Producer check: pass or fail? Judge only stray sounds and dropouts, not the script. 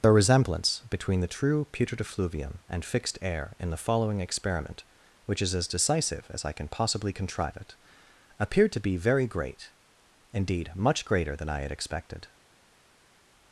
pass